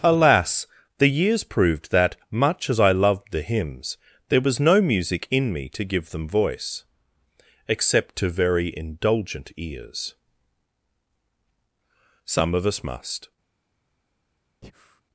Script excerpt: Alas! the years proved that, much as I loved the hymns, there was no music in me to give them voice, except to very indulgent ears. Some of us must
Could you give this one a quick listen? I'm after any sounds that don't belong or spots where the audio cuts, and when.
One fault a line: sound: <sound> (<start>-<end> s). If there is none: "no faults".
sound: breath (14.6-15.0 s)